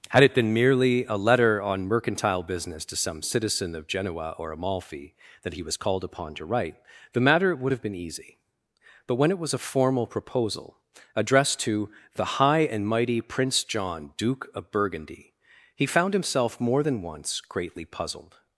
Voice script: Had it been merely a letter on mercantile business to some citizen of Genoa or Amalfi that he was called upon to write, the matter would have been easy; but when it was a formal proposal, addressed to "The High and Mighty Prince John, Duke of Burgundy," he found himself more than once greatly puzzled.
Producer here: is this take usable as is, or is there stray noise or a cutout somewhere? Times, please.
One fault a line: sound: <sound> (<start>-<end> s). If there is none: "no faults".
no faults